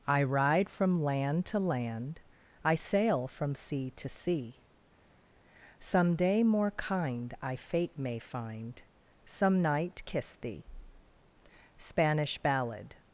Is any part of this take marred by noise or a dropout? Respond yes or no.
no